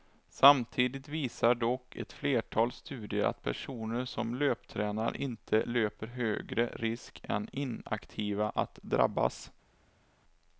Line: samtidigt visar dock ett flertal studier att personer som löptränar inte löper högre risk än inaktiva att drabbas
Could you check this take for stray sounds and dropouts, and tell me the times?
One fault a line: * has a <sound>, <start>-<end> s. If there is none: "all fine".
all fine